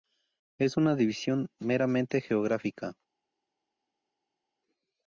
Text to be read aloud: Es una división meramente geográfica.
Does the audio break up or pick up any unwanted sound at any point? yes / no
no